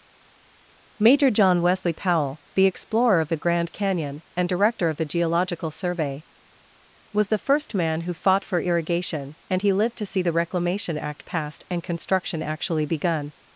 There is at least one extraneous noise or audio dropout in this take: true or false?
false